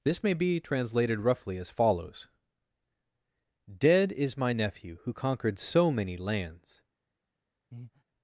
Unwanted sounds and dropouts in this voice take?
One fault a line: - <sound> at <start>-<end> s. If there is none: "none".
- breath at 7.7-8.0 s